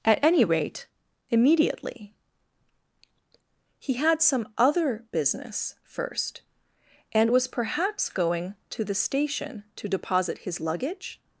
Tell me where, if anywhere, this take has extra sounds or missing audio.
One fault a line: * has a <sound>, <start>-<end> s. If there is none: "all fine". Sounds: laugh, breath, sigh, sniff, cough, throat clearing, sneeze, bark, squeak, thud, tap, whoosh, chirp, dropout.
all fine